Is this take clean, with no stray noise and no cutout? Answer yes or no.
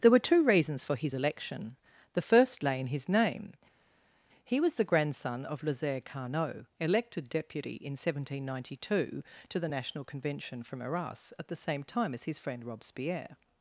yes